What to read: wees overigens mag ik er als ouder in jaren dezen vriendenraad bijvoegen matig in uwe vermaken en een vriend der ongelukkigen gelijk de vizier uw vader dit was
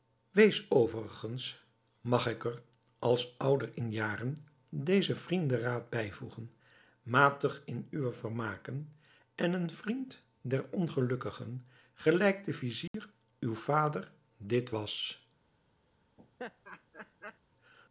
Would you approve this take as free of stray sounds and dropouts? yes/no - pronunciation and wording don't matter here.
no